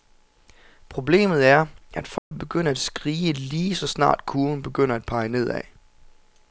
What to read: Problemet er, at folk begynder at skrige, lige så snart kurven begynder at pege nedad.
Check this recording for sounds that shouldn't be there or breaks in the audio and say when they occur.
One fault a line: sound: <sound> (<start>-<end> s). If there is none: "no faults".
sound: dropout (2.2-2.3 s)